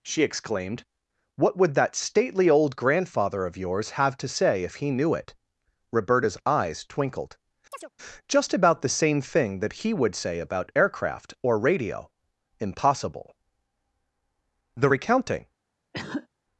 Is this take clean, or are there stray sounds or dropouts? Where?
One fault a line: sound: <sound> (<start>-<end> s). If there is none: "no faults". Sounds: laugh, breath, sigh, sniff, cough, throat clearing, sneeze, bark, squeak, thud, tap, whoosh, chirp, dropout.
sound: chirp (7.7-7.9 s)
sound: cough (15.9-16.3 s)